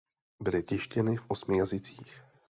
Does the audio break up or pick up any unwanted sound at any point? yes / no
no